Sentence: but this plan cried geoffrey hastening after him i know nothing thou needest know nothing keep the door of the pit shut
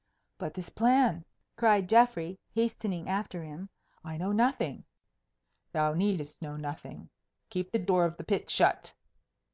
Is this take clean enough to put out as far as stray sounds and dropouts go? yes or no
yes